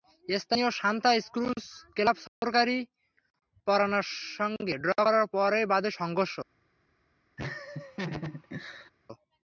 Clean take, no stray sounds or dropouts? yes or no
no